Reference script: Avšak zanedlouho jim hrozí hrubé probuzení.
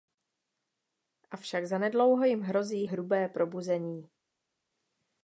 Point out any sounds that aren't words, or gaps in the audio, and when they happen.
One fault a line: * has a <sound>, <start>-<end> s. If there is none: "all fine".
all fine